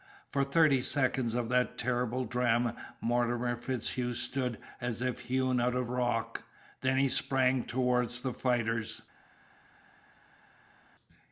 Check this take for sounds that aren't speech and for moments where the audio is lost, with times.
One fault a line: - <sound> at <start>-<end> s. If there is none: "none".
none